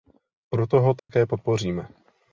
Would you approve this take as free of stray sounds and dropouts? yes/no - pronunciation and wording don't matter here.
no